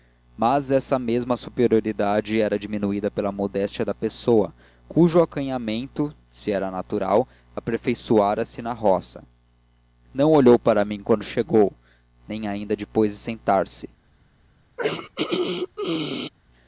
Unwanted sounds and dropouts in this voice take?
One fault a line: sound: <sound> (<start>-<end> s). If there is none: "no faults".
sound: throat clearing (14.8-16.3 s)